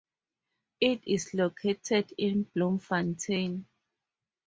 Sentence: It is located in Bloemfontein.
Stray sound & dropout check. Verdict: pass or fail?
pass